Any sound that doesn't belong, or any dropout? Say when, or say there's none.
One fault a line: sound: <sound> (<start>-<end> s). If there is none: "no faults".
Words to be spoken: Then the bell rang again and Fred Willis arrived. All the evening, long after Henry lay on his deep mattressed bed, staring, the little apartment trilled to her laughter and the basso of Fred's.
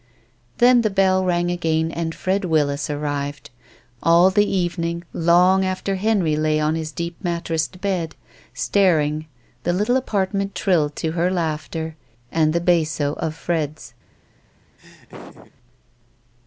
sound: laugh (14.8-15.5 s)